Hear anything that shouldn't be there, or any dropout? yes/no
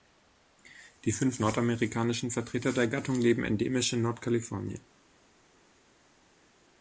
no